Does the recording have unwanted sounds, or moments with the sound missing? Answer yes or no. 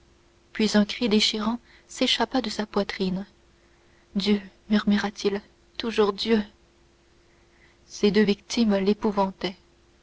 no